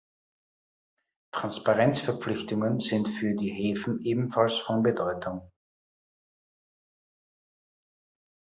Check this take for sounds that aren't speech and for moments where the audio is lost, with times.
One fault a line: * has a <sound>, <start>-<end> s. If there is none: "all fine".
all fine